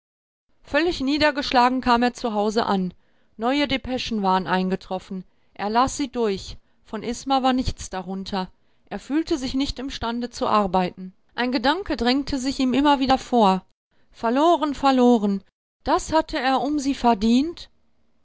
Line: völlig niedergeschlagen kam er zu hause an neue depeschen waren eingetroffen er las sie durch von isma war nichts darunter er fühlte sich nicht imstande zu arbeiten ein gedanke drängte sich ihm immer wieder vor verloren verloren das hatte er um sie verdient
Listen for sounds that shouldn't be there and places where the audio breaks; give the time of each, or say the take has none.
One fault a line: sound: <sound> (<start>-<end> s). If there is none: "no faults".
no faults